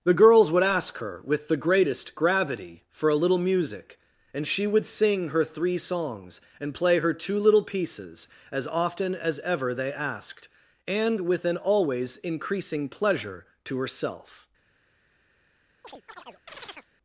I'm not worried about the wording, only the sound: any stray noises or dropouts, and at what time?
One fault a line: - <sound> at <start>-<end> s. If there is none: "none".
- chirp at 15.8-16.9 s